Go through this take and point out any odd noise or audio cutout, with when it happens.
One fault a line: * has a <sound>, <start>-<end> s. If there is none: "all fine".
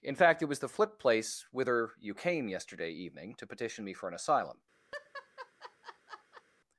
* has a laugh, 4.9-6.4 s